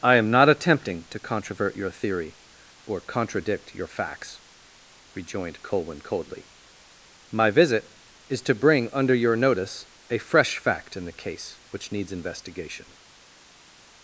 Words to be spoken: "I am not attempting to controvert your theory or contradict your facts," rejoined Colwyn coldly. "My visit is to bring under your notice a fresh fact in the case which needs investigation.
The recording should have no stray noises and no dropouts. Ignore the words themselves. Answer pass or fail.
pass